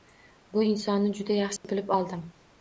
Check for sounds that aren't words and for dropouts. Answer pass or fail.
fail